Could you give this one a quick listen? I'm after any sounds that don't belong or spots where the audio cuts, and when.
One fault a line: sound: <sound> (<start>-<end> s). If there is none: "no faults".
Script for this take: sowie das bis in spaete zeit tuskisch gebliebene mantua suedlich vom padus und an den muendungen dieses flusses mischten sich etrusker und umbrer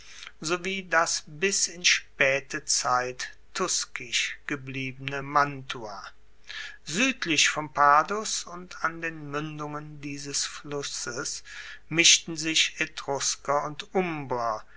no faults